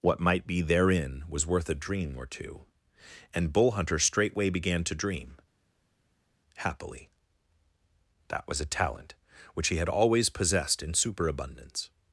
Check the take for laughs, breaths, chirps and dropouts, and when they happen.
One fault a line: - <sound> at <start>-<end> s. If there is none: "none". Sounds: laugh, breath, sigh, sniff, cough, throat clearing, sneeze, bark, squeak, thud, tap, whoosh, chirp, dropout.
none